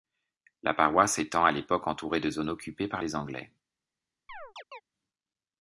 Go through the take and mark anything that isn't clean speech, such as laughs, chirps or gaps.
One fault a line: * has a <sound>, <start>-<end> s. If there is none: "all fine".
* has a chirp, 4.3-4.8 s